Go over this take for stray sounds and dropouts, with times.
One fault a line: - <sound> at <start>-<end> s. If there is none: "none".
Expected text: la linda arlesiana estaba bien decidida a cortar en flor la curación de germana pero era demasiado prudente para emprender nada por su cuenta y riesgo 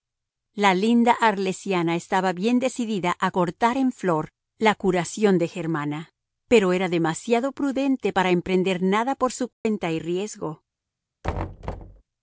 - dropout at 9.5-9.7 s
- thud at 11.2-12.0 s